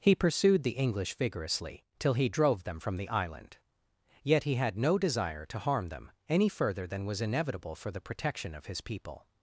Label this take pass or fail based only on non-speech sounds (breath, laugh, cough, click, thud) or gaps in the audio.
pass